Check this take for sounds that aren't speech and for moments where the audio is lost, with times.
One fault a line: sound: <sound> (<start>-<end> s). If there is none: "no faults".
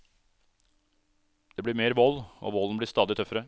no faults